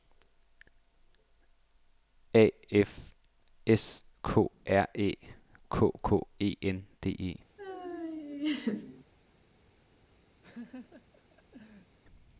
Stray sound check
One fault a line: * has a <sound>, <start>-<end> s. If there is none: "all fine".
* has a laugh, 7.6-9.0 s
* has a laugh, 10.4-12.0 s